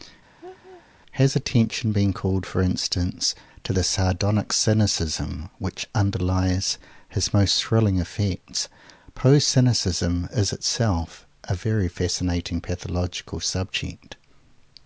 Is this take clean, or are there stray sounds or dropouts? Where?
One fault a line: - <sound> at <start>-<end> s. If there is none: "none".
- laugh at 0.4-0.8 s